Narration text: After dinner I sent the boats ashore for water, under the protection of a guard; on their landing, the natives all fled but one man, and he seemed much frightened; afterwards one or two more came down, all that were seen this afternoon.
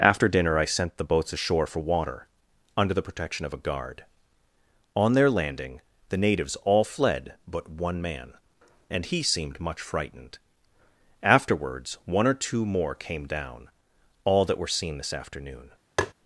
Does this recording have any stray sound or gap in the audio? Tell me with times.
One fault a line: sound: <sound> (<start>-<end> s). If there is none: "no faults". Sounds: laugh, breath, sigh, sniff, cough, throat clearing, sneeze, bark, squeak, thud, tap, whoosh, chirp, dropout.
sound: tap (16.0-16.1 s)